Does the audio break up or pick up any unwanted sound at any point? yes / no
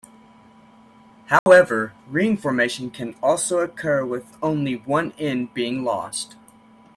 yes